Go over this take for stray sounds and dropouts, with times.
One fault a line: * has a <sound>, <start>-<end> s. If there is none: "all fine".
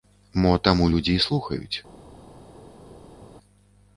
all fine